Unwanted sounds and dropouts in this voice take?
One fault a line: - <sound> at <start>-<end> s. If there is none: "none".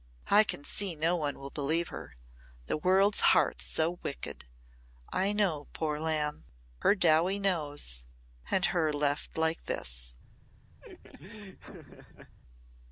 - laugh at 10.8-12.4 s